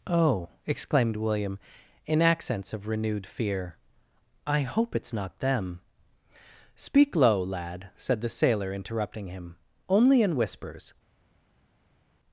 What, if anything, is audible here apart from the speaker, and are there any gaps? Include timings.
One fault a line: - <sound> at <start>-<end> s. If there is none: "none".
none